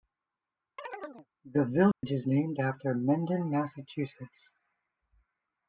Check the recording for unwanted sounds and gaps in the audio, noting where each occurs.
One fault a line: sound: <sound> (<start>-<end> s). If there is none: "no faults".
sound: chirp (0.8-1.3 s)
sound: dropout (1.9-2.0 s)